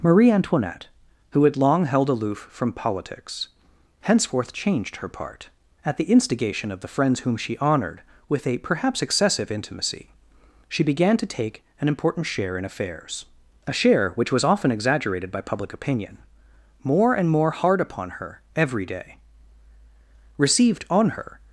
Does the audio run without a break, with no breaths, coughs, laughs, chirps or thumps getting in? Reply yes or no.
yes